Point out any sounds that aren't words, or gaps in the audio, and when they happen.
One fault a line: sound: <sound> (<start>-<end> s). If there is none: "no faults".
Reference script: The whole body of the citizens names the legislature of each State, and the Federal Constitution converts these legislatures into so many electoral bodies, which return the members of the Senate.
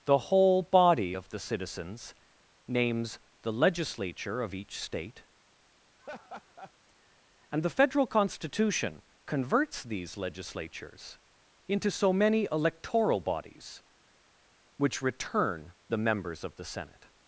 sound: laugh (6.0-6.7 s)